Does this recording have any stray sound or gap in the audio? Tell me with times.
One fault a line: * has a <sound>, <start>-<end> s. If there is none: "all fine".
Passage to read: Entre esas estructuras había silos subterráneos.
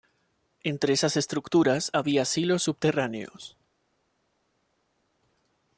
all fine